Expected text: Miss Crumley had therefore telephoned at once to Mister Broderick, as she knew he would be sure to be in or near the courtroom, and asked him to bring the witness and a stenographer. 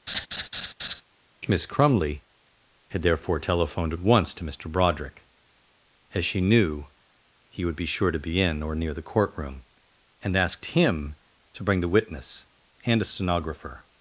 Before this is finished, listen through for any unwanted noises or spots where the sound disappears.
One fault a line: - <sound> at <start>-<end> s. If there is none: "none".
- laugh at 0.1-1.0 s